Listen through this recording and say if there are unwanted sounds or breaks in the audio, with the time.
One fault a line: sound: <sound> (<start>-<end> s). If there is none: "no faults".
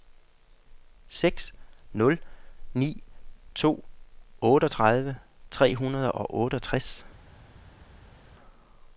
no faults